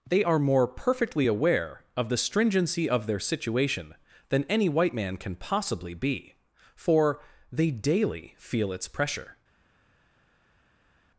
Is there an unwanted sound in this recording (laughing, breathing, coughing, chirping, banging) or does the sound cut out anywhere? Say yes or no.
no